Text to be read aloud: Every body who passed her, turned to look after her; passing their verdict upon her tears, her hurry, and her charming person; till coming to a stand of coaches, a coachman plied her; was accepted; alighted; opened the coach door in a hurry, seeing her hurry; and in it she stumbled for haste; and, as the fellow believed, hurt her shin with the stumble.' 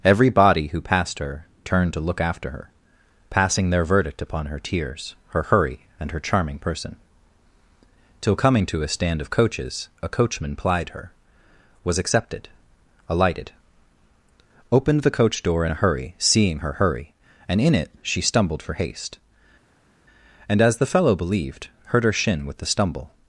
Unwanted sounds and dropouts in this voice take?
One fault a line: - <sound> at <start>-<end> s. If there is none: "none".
none